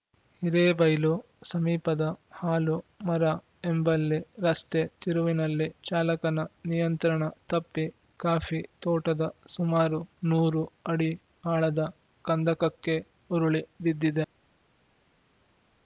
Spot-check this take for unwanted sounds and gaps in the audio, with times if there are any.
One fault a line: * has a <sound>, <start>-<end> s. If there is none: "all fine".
all fine